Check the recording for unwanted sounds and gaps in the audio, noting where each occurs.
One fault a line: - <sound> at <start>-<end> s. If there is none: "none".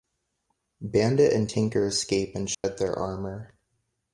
- dropout at 2.5-2.6 s